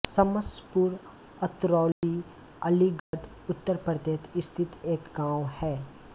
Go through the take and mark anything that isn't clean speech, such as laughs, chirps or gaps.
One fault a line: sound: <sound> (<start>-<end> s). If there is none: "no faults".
sound: dropout (1.9-2.0 s)
sound: dropout (3.0-3.1 s)